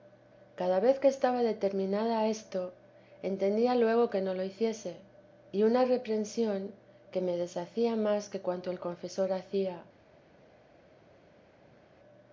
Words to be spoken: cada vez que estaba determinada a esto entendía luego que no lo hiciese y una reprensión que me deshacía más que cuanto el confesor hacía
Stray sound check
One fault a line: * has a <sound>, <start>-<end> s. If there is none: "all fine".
all fine